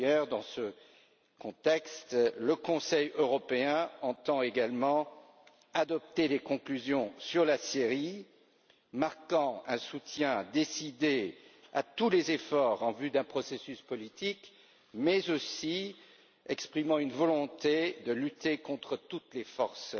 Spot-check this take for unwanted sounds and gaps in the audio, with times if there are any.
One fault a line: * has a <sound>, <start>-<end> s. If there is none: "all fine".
all fine